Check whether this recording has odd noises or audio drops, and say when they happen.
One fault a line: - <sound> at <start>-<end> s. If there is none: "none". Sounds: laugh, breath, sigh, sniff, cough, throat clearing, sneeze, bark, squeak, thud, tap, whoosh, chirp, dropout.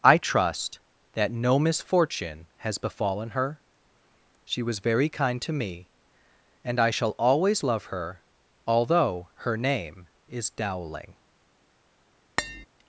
- tap at 12.4-12.7 s